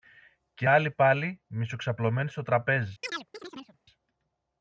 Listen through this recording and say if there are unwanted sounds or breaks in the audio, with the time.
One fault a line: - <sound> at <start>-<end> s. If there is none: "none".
- chirp at 3.0-3.8 s